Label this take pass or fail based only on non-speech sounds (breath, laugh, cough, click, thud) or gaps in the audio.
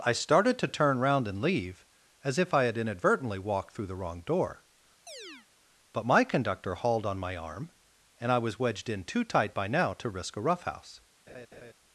fail